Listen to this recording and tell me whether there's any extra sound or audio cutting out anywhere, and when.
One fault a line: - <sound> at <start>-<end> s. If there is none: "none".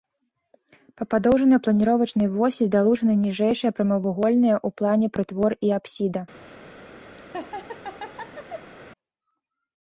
- laugh at 7.2-8.7 s